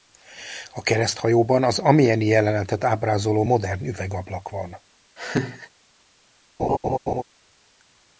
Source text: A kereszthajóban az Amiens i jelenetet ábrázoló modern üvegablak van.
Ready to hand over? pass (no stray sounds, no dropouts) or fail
fail